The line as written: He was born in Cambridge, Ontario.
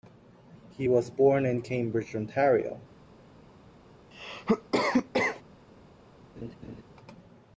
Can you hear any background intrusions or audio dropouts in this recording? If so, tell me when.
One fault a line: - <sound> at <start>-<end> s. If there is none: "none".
- cough at 4.1-5.4 s
- laugh at 6.4-6.8 s